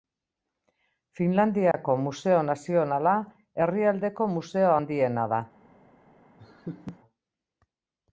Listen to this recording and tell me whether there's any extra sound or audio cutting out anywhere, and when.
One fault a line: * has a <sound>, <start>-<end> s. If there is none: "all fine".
* has a dropout, 1.7-1.7 s
* has a laugh, 6.4-7.0 s